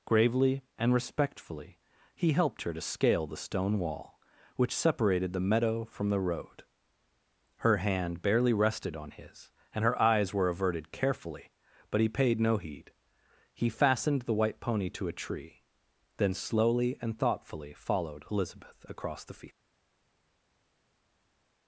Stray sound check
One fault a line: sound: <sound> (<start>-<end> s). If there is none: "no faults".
no faults